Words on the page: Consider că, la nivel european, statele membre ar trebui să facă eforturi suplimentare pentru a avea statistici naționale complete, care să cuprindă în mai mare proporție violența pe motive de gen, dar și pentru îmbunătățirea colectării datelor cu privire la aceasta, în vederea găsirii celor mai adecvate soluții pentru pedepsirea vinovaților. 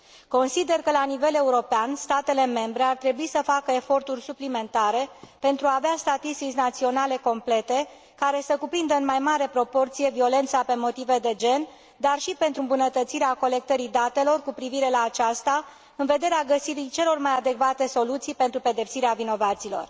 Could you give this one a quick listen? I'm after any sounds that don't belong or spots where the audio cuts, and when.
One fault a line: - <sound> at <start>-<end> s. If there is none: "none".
none